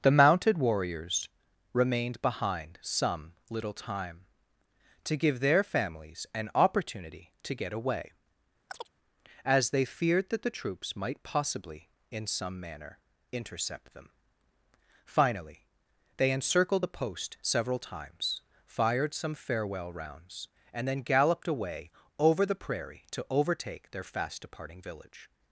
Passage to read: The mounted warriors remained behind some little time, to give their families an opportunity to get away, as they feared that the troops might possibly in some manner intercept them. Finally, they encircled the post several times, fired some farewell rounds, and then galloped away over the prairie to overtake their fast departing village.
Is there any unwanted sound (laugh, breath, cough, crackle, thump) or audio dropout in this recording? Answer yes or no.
yes